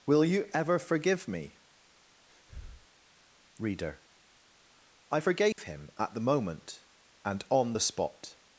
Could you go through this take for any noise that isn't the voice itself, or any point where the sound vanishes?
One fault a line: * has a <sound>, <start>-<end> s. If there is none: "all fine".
* has a breath, 2.3-2.9 s
* has a dropout, 5.5-5.6 s